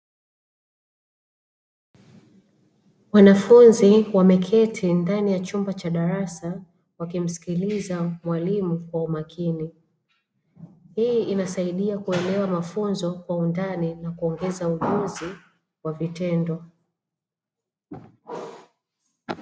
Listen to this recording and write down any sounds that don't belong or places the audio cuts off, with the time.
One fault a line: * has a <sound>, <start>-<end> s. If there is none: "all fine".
all fine